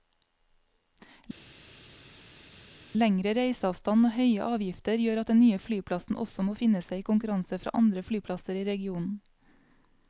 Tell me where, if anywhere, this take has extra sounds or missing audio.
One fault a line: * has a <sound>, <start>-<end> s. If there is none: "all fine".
all fine